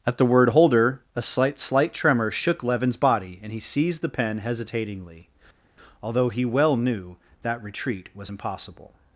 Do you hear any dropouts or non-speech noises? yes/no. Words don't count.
no